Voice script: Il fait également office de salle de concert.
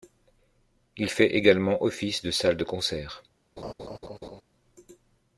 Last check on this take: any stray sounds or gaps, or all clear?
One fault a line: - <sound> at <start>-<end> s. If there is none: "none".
- laugh at 3.6-4.4 s